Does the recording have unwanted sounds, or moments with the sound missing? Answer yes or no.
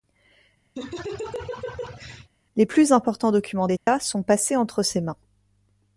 yes